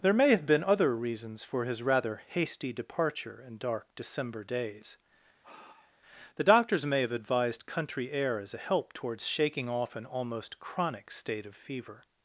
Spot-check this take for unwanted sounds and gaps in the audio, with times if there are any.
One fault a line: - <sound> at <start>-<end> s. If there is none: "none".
- sigh at 5.4-6.0 s